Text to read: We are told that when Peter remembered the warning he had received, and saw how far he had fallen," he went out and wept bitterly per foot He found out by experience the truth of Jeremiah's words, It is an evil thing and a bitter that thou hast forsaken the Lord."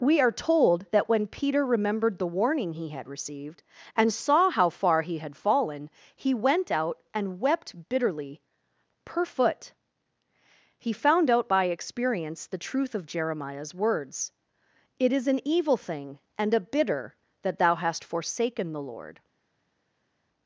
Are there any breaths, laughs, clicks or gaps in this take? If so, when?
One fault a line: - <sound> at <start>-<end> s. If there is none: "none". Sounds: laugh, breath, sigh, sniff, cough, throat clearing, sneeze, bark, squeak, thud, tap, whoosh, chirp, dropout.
none